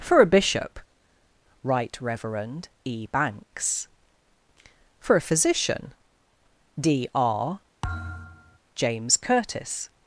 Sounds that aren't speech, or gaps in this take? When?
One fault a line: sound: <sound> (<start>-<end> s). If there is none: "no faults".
sound: thud (7.8-8.6 s)